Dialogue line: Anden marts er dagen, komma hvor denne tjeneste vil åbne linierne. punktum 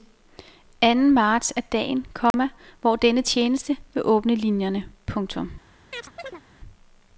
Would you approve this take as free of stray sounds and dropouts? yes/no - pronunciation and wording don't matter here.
no